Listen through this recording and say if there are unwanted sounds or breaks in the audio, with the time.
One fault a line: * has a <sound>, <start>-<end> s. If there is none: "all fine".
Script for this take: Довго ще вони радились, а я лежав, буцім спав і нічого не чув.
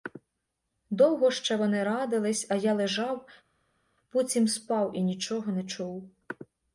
all fine